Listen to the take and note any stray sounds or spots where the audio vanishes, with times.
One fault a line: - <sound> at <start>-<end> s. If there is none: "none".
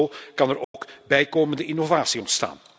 - dropout at 0.6-0.7 s